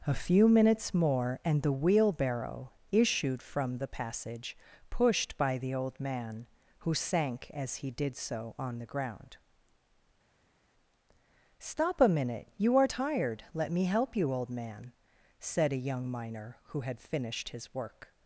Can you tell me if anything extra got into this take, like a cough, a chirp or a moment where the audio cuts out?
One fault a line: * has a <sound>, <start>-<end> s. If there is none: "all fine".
all fine